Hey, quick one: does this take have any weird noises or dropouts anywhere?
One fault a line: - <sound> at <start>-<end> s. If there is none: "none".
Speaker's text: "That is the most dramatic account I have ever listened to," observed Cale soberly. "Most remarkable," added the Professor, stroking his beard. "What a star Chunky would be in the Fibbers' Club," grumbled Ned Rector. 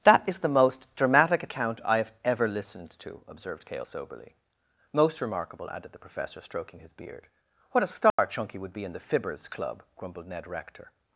- dropout at 8.1-8.2 s